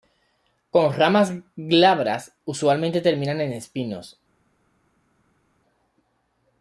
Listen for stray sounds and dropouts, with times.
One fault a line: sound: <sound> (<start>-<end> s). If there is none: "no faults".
no faults